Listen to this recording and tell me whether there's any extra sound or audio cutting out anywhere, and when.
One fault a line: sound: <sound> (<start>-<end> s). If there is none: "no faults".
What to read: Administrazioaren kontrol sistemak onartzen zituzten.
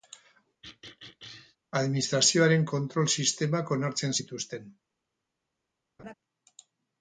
sound: throat clearing (0.6-1.6 s)
sound: laugh (6.0-6.1 s)